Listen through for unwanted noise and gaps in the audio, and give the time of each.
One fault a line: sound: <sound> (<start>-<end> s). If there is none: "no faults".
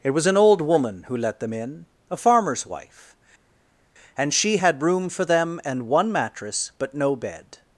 no faults